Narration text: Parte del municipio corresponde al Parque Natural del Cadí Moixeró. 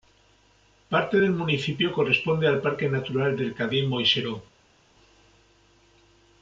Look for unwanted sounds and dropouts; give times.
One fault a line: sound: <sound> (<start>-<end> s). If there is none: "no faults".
no faults